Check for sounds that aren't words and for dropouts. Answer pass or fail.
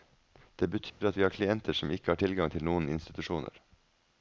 fail